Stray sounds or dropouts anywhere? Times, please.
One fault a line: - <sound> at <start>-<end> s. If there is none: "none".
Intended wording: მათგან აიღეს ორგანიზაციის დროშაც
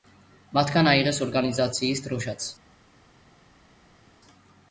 none